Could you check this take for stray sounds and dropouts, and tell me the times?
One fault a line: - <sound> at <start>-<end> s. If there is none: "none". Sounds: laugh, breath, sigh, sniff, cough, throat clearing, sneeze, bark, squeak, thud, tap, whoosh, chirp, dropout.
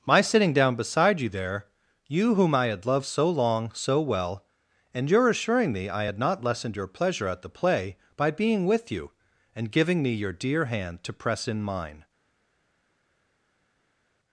none